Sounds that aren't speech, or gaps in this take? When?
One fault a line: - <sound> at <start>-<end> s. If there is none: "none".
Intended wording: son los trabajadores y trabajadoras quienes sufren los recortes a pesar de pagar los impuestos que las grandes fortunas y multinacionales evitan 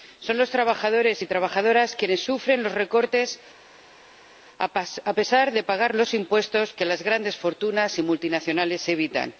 none